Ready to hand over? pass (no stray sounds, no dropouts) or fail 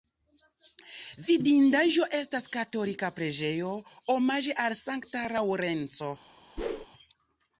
fail